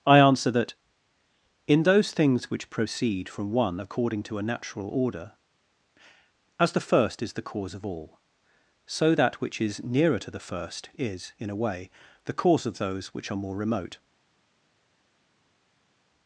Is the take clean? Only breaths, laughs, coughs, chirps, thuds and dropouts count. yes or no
yes